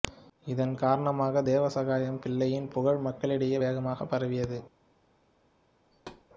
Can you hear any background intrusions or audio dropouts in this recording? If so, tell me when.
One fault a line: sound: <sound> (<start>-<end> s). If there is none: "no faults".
sound: thud (5.9-6.3 s)